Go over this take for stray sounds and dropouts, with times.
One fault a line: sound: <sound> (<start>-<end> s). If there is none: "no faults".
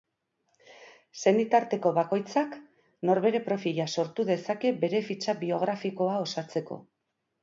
no faults